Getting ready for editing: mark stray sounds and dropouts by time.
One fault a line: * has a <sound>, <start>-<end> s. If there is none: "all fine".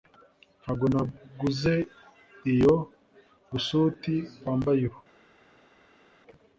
all fine